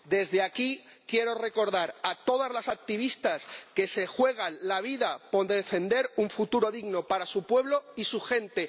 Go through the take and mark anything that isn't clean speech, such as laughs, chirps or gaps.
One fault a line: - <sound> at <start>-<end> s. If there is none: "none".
none